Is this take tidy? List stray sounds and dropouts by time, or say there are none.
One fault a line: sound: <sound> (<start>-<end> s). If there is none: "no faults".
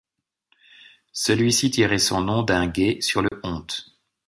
sound: dropout (3.3-3.3 s)